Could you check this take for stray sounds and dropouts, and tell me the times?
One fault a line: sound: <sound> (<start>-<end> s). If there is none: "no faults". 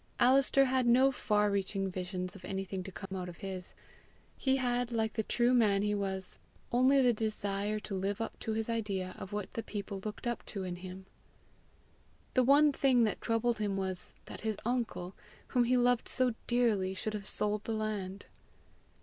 sound: dropout (3.1-3.1 s)